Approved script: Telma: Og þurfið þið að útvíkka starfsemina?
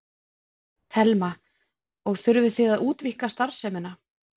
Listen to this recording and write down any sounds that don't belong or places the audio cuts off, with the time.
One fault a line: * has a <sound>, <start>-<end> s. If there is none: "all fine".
all fine